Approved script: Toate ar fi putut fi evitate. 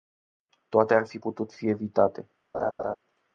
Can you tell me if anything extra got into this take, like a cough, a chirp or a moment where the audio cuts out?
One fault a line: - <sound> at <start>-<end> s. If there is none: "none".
- laugh at 2.5-3.0 s